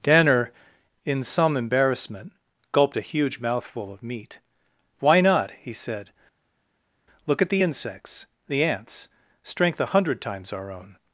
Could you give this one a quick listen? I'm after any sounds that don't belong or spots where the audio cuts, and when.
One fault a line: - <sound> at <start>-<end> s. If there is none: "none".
none